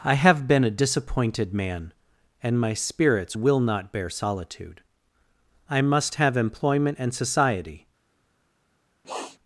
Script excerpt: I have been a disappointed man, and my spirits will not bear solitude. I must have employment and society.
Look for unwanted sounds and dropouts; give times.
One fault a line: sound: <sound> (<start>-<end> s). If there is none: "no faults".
sound: sniff (9.0-9.4 s)